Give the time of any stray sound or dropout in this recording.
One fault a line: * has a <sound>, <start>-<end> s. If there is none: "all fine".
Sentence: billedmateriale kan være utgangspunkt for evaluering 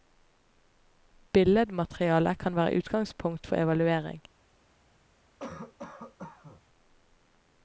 * has a cough, 5.4-6.6 s